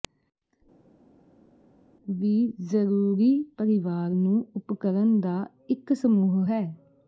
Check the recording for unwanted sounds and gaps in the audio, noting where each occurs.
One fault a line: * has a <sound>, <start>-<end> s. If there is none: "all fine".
all fine